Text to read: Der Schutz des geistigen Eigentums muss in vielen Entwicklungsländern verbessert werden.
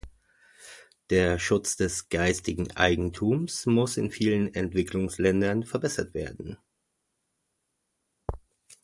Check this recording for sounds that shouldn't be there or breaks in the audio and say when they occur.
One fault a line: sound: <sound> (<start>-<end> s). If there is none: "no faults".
no faults